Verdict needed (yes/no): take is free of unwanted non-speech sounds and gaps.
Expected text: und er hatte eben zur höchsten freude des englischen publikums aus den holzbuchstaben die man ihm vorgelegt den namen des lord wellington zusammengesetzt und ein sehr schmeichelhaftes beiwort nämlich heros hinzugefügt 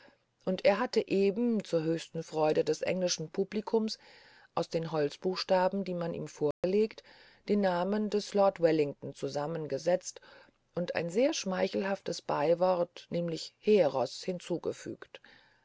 no